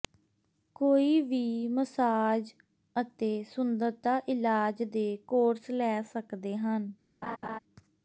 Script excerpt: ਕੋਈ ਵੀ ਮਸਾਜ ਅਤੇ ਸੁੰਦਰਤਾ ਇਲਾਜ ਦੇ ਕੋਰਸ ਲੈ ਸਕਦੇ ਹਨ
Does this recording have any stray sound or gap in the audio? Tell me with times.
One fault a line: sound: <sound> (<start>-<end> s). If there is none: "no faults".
sound: laugh (7.2-7.6 s)